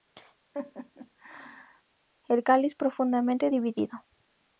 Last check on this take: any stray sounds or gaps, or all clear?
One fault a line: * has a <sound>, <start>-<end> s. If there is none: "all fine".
* has a laugh, 0.5-1.8 s